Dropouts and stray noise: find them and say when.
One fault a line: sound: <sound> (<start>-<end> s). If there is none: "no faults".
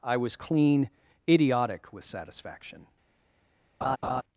sound: laugh (3.8-4.2 s)